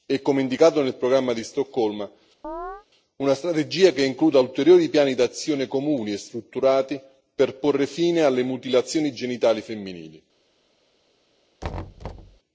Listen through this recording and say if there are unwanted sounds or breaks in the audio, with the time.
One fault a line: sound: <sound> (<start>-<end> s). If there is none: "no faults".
sound: chirp (2.4-2.9 s)
sound: thud (11.6-12.4 s)